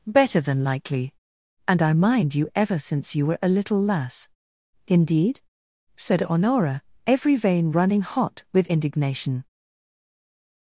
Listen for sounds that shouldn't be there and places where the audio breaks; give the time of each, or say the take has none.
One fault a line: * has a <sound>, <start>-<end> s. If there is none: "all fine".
all fine